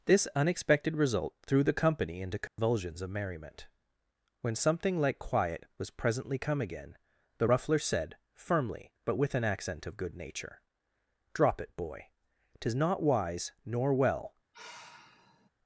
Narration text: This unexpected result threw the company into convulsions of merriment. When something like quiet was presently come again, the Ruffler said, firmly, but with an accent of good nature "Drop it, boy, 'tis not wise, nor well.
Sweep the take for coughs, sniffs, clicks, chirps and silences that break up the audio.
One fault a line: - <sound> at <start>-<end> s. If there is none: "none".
- dropout at 2.5-2.6 s
- sigh at 14.5-15.5 s